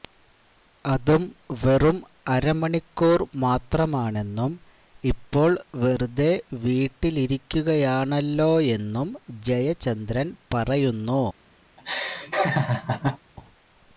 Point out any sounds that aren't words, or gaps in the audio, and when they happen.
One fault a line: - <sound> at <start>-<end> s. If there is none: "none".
- laugh at 11.8-13.2 s